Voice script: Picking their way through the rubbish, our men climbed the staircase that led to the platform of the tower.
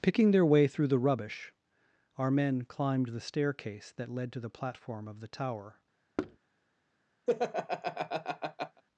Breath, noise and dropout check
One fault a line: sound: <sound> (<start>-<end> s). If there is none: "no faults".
sound: thud (6.2-6.4 s)
sound: laugh (7.3-8.8 s)